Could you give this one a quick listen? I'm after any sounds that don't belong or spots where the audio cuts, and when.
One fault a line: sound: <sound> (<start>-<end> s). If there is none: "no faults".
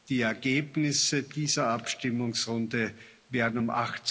no faults